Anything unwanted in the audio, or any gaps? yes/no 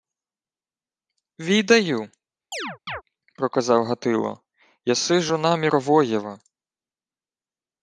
yes